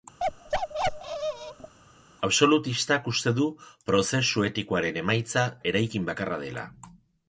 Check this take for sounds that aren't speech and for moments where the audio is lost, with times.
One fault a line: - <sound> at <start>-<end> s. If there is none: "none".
- bark at 0.2-1.7 s